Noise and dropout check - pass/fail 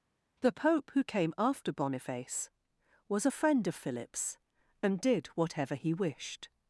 pass